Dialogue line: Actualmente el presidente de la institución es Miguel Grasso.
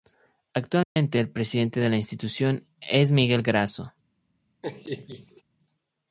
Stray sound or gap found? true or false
true